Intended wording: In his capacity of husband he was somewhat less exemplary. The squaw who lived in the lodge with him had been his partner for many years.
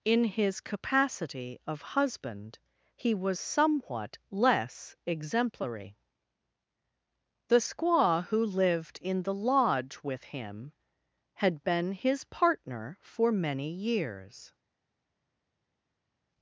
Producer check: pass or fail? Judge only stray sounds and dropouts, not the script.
pass